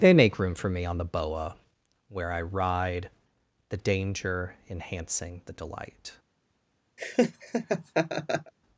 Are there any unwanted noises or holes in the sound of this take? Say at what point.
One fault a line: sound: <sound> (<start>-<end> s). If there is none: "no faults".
sound: laugh (7.0-8.5 s)